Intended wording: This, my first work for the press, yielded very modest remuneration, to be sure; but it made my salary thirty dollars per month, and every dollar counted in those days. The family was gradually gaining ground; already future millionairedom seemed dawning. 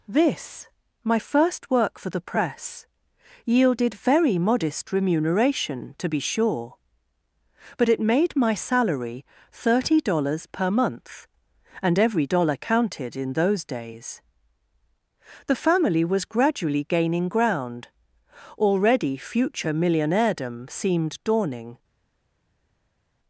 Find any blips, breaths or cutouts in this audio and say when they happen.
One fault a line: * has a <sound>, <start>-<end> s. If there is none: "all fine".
all fine